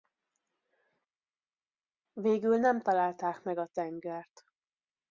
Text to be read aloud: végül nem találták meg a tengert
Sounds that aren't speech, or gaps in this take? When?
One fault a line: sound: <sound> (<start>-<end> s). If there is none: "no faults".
no faults